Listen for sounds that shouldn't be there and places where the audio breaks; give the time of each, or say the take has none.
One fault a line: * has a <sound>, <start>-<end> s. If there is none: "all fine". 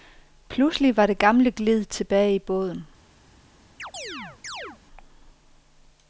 * has a chirp, 3.8-4.8 s